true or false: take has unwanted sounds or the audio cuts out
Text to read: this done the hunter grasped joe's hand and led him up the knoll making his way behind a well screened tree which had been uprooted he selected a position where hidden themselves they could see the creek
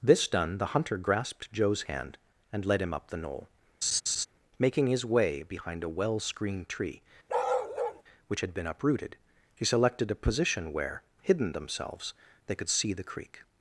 true